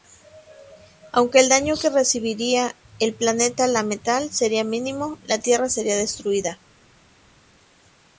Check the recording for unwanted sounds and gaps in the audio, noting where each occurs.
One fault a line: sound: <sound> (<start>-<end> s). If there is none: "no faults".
no faults